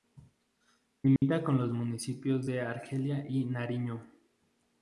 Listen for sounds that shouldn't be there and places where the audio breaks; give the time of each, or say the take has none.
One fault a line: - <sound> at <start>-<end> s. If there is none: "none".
- dropout at 1.2-1.2 s